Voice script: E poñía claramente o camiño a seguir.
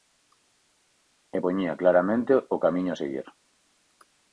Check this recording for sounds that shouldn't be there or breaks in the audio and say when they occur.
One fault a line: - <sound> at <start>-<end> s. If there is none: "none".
none